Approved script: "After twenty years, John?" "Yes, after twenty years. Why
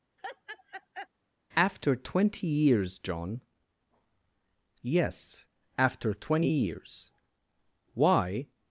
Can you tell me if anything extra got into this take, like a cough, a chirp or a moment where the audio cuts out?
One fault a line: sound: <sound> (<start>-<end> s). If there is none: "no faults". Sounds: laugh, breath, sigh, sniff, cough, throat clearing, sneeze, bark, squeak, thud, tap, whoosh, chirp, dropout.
sound: laugh (0.2-1.1 s)